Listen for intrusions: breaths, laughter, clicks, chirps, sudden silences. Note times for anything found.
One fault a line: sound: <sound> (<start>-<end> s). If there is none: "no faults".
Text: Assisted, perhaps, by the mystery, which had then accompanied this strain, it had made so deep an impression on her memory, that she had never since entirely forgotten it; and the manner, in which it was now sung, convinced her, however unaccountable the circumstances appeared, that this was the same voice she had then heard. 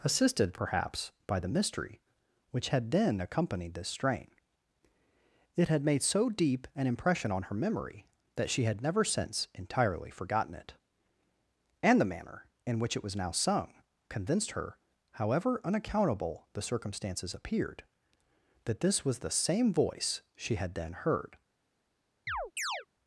sound: chirp (22.3-22.9 s)